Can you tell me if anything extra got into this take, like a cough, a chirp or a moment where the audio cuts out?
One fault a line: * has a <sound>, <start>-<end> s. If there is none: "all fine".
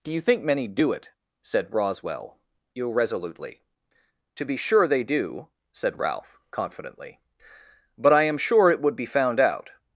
all fine